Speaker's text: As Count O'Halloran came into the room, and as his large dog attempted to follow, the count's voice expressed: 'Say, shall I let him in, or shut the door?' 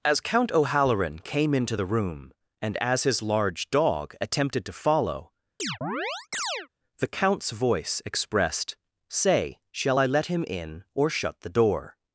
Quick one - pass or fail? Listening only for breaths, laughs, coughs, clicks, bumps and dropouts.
fail